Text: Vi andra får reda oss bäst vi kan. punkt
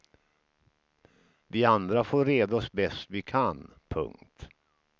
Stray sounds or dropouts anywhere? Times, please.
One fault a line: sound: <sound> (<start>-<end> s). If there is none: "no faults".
no faults